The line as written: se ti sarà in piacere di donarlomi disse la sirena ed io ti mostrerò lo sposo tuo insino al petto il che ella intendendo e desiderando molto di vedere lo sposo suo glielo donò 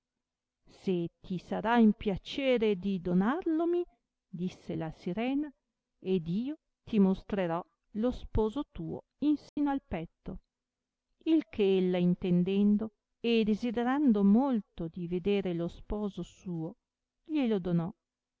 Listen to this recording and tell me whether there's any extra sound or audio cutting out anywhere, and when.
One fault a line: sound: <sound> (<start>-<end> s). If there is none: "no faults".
sound: dropout (9.5-9.6 s)